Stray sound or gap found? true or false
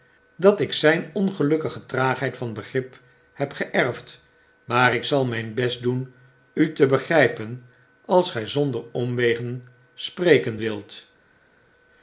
false